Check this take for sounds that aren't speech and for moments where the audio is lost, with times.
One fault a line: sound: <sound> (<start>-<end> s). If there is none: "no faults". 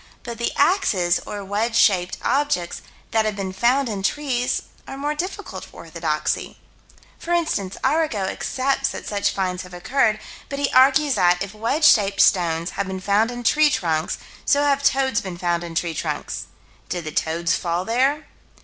no faults